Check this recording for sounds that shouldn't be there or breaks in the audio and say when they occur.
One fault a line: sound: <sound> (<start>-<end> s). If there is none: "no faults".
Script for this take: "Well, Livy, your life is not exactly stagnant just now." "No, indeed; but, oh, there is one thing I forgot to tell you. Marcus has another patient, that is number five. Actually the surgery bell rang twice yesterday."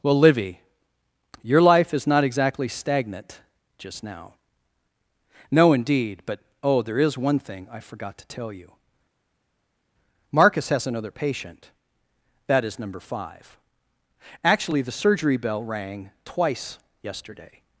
no faults